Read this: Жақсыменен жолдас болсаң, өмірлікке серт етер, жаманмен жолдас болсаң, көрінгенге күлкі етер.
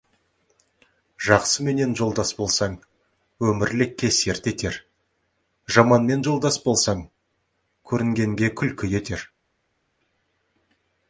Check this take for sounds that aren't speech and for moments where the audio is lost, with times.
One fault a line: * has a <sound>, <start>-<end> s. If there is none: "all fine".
all fine